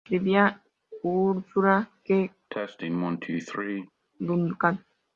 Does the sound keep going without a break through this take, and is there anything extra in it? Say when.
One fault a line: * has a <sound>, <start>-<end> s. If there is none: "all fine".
* has a cough, 2.5-3.9 s